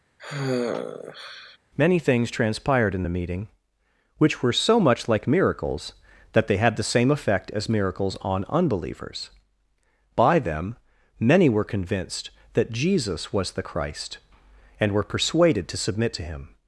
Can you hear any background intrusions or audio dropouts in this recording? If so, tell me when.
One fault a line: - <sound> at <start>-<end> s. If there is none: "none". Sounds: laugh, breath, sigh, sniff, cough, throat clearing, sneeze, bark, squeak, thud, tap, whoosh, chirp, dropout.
- sigh at 0.2-1.6 s